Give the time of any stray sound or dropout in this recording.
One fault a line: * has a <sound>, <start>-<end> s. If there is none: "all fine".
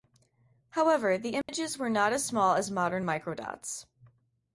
* has a dropout, 1.4-1.5 s